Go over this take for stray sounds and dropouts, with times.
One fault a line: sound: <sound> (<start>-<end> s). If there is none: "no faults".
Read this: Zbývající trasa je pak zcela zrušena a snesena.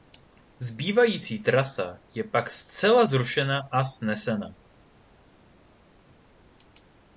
no faults